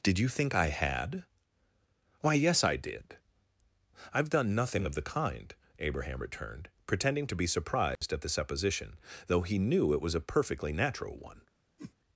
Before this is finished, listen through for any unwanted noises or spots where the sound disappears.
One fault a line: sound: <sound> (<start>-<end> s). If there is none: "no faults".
sound: dropout (8.0-8.0 s)
sound: whoosh (11.8-11.9 s)